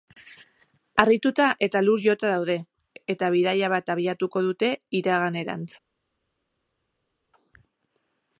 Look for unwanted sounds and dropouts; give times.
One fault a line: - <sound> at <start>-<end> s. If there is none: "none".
none